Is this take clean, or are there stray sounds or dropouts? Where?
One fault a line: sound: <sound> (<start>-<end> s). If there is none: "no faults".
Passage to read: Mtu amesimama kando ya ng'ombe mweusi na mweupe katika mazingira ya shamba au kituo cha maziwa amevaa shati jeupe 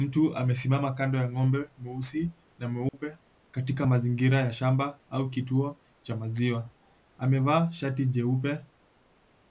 sound: dropout (2.9-2.9 s)